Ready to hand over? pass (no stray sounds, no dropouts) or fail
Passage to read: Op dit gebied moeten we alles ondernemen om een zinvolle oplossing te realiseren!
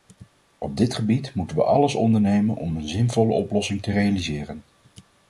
pass